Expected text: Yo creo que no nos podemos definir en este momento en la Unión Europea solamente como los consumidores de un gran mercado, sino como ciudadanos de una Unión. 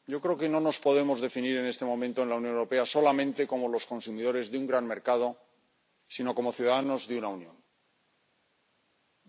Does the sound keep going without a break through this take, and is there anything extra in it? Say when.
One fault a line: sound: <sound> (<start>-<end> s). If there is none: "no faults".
no faults